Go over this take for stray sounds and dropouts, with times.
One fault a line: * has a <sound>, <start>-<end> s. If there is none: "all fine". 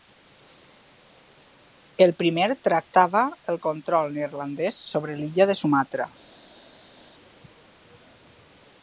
all fine